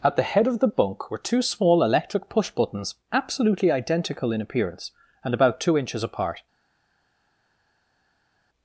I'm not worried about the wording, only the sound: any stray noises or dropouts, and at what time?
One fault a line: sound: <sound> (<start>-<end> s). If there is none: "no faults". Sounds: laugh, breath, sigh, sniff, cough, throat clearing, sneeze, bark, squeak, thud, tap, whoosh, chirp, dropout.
no faults